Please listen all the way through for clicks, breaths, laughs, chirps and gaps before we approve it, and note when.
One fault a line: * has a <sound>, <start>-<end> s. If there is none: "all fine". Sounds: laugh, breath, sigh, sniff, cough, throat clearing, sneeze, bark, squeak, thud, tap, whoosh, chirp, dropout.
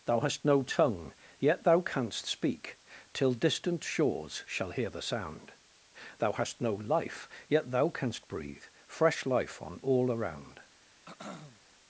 * has a throat clearing, 11.1-11.6 s